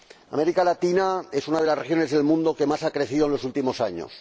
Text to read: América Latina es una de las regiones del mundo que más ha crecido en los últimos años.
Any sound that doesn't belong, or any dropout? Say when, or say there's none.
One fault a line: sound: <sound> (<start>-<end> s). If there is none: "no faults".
no faults